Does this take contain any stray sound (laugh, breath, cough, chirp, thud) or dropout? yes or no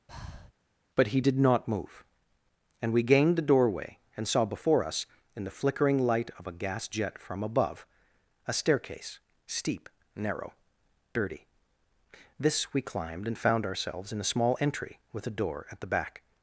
yes